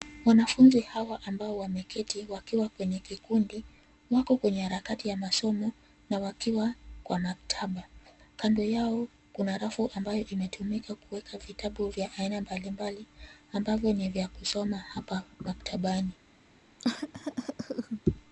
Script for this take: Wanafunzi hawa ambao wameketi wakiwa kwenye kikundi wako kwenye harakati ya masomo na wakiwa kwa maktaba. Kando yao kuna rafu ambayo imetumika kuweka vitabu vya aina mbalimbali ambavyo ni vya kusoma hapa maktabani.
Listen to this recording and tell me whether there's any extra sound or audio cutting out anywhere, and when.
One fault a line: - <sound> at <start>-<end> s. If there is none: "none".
- cough at 16.8-18.0 s